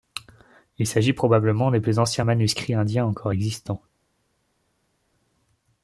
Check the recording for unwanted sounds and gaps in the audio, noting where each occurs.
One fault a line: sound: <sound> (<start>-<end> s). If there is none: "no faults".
no faults